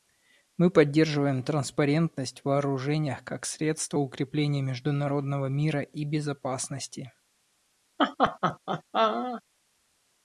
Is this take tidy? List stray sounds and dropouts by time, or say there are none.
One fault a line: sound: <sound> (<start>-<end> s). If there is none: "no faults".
sound: laugh (8.0-9.4 s)